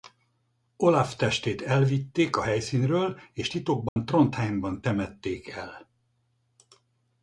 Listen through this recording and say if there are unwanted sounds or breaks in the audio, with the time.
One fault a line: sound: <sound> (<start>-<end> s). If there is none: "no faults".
sound: dropout (3.9-4.0 s)